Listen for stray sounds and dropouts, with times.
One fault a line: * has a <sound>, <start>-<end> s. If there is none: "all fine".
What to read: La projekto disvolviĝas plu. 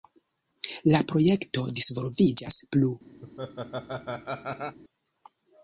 * has a laugh, 3.2-4.8 s